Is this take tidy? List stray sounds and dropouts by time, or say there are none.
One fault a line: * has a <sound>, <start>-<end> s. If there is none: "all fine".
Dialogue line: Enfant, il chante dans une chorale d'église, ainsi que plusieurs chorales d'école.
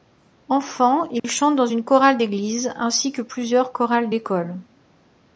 * has a dropout, 1.2-1.2 s